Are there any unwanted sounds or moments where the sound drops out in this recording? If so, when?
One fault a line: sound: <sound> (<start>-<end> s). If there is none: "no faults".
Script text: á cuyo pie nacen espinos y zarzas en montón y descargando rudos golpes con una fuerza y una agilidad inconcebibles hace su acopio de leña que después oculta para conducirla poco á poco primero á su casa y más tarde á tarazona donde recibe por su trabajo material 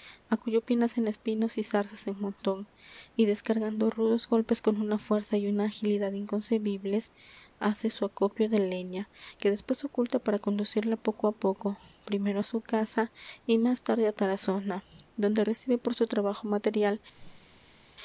sound: whoosh (17.1-17.9 s)